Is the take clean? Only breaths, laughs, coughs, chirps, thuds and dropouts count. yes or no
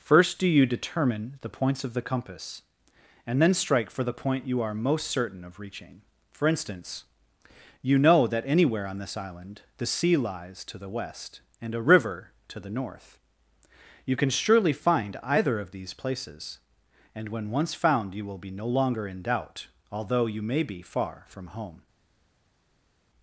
yes